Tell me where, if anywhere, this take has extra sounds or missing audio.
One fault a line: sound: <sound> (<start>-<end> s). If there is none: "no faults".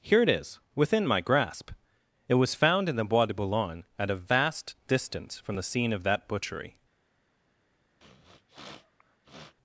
sound: sniff (8.0-9.5 s)